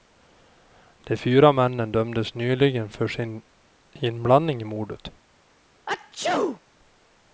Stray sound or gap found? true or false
true